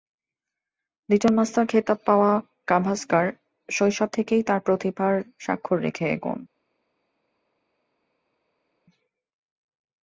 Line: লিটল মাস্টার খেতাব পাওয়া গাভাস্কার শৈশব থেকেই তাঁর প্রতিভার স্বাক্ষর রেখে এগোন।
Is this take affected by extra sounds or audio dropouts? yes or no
no